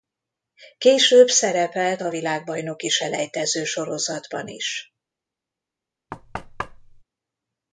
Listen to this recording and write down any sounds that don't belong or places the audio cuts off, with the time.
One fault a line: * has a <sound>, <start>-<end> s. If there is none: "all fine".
* has a thud, 6.1-7.0 s